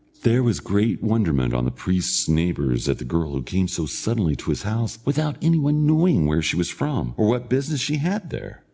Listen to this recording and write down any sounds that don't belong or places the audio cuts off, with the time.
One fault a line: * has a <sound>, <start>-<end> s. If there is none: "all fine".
all fine